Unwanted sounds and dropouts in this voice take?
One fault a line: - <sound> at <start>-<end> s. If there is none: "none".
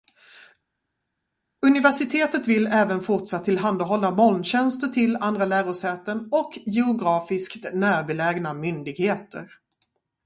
none